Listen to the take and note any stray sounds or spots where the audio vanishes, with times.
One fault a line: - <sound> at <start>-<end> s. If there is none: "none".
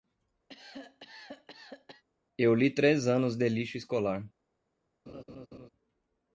- cough at 0.5-2.0 s
- laugh at 5.1-5.7 s